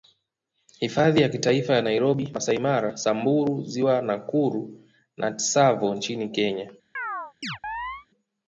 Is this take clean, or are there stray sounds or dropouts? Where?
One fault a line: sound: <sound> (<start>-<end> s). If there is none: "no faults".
sound: chirp (7.0-8.1 s)